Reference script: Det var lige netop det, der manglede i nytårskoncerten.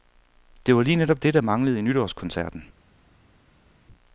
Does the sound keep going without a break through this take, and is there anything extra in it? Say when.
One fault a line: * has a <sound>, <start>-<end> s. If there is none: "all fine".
all fine